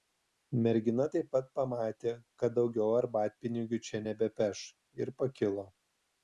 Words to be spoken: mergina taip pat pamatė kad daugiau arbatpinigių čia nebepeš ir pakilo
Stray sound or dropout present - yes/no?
no